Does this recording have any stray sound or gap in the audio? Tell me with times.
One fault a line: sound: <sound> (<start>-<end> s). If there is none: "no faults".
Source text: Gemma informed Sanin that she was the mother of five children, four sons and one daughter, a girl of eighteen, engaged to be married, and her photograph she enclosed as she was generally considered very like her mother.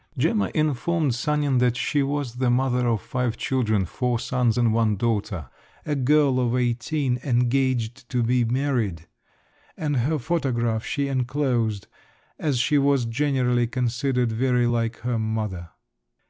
no faults